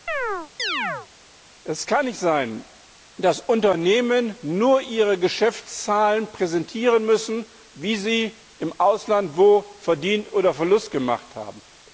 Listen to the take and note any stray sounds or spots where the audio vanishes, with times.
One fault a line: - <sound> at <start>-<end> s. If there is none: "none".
- chirp at 0.1-1.1 s